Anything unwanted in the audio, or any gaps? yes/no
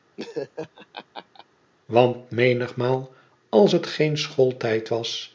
yes